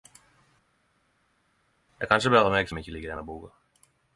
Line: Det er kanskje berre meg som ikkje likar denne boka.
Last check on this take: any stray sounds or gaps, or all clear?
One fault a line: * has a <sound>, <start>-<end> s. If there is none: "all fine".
all fine